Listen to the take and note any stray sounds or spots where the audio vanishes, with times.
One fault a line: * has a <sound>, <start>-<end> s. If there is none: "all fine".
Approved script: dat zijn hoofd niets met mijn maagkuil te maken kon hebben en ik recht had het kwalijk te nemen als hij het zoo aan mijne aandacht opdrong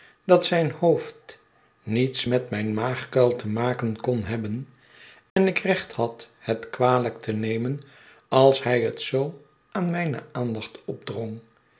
* has a dropout, 5.3-5.4 s